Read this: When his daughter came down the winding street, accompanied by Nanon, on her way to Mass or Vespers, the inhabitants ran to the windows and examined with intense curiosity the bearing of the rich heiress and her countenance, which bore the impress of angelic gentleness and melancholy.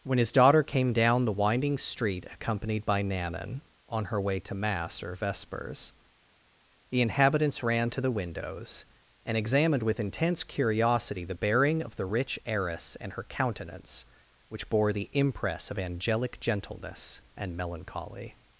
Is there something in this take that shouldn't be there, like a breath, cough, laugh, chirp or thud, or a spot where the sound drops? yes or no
no